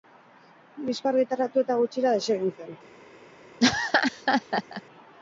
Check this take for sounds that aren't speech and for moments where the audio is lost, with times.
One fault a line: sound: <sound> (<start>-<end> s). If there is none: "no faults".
sound: laugh (3.6-4.8 s)